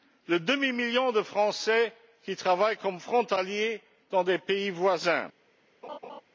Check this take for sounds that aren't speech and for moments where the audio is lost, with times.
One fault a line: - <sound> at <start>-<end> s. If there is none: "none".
- laugh at 5.8-6.2 s